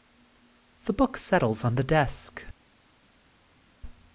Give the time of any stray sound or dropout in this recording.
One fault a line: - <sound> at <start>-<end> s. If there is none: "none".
none